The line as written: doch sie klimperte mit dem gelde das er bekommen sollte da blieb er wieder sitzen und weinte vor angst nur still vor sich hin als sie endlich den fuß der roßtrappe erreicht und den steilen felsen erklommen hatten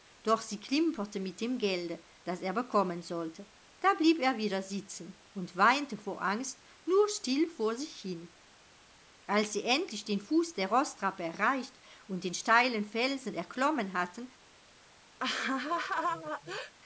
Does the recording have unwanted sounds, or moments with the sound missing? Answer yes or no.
yes